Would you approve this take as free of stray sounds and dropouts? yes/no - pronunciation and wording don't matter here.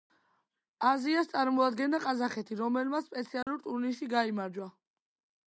no